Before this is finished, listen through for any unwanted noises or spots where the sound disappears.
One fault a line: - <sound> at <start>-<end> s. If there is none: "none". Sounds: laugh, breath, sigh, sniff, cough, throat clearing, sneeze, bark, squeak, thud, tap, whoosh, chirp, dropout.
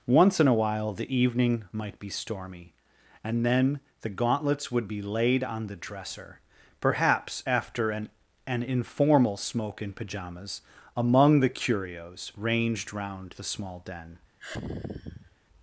- sigh at 14.4-15.4 s